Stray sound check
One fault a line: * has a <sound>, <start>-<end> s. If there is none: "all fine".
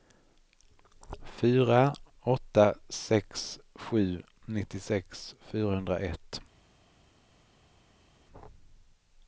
all fine